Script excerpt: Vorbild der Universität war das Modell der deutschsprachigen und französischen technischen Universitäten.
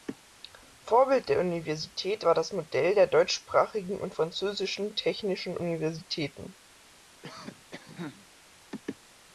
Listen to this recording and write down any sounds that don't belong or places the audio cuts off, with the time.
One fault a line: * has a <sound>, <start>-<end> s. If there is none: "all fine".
* has a cough, 7.2-8.3 s